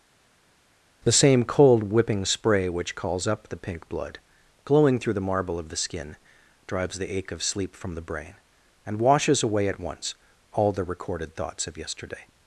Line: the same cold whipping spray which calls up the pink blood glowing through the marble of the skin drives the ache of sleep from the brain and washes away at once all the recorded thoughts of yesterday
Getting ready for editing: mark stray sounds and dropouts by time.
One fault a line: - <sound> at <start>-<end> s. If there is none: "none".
none